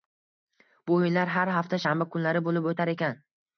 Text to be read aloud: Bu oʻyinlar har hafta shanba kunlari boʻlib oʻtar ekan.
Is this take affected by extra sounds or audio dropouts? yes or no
no